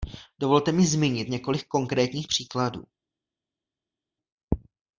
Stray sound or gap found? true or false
false